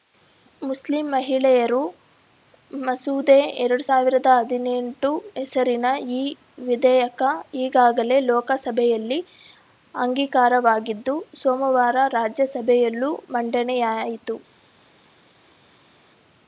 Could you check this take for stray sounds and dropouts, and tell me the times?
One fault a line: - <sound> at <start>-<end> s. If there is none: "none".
none